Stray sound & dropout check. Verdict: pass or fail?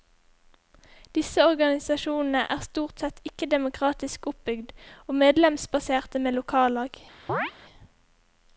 fail